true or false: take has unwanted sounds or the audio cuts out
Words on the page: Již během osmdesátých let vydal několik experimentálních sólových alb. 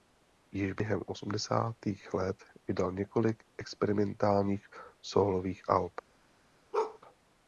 true